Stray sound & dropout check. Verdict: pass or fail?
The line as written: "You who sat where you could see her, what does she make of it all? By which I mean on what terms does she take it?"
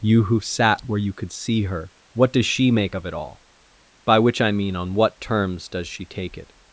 pass